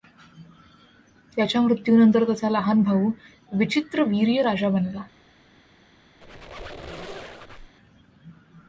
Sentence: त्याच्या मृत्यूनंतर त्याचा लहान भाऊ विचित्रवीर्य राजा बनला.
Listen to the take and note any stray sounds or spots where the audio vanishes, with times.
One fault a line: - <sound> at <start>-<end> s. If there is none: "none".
- squeak at 6.2-7.7 s